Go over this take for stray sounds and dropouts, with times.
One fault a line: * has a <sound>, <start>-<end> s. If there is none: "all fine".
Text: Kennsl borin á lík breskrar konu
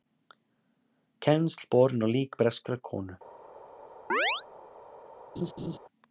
* has a chirp, 4.1-4.4 s
* has a laugh, 5.4-5.8 s